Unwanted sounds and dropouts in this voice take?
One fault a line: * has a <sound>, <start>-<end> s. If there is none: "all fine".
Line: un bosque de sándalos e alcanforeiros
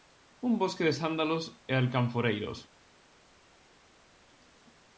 all fine